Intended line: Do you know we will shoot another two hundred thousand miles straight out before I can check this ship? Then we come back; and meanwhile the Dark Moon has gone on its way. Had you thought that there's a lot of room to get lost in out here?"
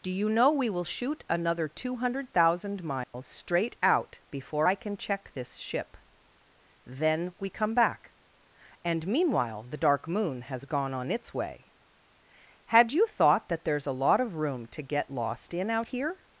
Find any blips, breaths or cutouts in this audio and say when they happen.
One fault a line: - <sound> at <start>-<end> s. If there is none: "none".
- dropout at 3.0-3.1 s